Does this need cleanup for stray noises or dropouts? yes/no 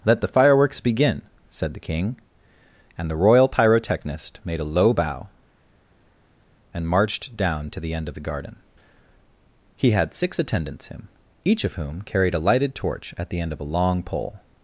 no